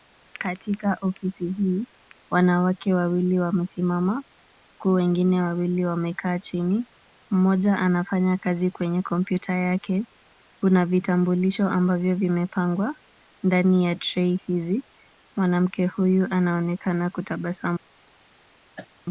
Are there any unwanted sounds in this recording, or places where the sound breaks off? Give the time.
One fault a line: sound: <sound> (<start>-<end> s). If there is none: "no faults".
sound: cough (18.8-18.9 s)